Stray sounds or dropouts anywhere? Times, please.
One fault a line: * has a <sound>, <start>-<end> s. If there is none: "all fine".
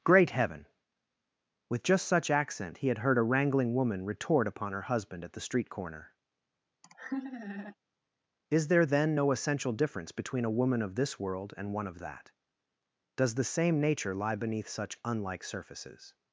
* has a laugh, 6.8-7.8 s